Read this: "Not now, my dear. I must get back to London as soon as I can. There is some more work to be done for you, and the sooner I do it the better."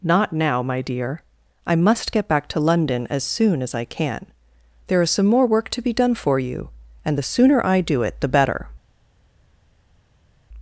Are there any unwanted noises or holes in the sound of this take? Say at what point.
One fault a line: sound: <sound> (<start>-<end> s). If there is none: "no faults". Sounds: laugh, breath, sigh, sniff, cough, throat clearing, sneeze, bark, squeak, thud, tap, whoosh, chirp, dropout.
no faults